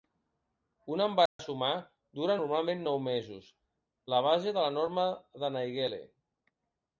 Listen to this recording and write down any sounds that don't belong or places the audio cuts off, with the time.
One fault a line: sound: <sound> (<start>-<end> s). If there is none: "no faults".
sound: dropout (1.3-1.4 s)